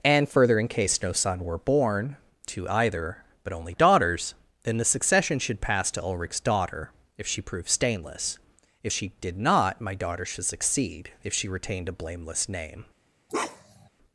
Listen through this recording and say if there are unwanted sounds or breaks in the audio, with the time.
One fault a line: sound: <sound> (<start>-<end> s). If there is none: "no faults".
sound: bark (13.3-13.9 s)